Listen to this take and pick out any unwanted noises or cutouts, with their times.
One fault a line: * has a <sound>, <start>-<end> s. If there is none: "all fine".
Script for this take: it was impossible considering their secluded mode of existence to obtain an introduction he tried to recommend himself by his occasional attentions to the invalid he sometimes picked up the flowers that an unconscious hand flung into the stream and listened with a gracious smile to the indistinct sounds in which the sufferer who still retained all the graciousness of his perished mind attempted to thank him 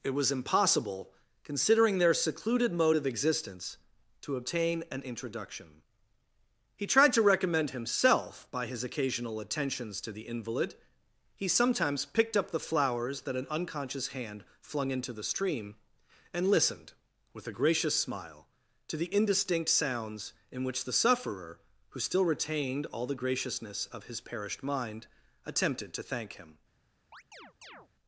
* has a chirp, 27.1-27.9 s